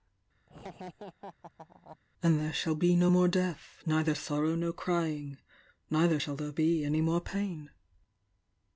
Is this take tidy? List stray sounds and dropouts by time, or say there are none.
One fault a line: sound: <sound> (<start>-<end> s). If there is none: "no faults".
sound: laugh (0.5-2.0 s)